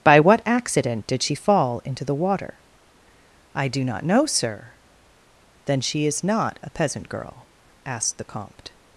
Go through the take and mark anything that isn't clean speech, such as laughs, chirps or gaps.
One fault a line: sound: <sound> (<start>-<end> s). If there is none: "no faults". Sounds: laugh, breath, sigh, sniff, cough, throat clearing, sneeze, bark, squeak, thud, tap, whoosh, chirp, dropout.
no faults